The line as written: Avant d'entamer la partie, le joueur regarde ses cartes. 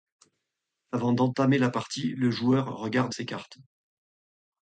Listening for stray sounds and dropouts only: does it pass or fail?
pass